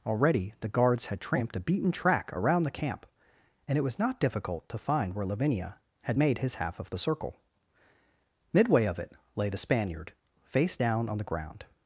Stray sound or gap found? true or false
false